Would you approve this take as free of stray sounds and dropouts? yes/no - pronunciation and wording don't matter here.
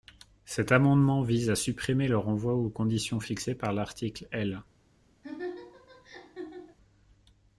no